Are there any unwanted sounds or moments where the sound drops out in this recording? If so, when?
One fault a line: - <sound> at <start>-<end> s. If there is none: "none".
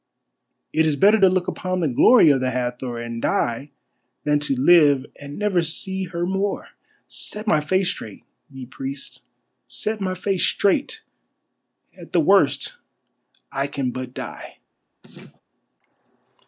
- laugh at 15.0-15.4 s